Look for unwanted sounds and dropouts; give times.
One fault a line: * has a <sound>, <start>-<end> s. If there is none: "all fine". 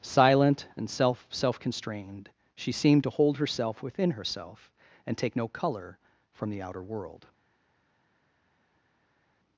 all fine